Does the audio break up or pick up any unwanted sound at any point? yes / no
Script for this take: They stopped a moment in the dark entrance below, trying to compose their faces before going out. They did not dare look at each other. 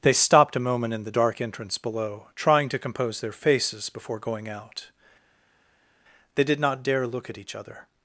no